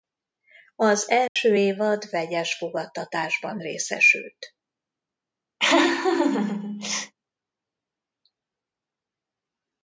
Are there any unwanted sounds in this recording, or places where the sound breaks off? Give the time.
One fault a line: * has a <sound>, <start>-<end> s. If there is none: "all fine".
* has a dropout, 1.3-1.4 s
* has a laugh, 5.6-7.1 s